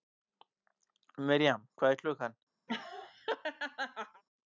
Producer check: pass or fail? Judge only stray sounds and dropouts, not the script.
fail